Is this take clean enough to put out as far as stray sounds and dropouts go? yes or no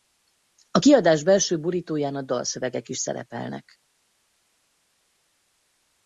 yes